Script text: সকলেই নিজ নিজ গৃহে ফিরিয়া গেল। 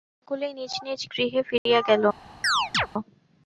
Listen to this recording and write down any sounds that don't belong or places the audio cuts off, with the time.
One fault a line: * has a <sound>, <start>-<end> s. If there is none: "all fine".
* has a dropout, 1.6-1.7 s
* has a chirp, 2.4-2.9 s